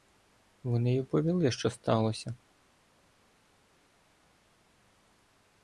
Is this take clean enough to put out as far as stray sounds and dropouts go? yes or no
yes